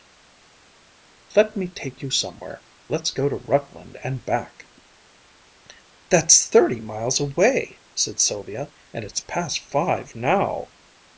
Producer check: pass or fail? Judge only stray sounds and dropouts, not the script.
pass